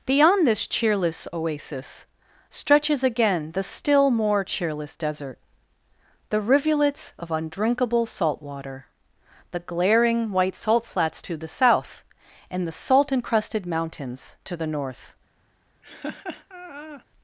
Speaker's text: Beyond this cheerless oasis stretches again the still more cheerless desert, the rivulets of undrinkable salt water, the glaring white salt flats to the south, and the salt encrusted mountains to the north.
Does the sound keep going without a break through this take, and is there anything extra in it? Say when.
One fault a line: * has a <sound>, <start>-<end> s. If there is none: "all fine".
* has a laugh, 15.8-17.1 s